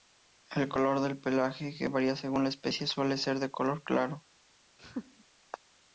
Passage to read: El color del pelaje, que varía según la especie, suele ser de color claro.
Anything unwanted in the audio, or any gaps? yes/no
yes